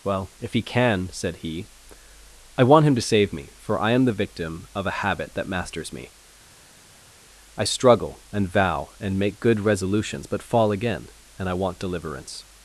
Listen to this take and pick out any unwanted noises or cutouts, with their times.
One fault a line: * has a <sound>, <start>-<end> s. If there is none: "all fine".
all fine